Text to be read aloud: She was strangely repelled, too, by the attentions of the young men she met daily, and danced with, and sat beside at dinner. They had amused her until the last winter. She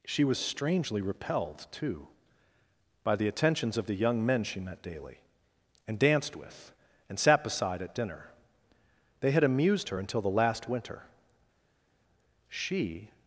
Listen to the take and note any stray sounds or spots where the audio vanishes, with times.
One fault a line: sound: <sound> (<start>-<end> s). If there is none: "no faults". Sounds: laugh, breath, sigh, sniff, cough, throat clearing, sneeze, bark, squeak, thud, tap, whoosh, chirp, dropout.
no faults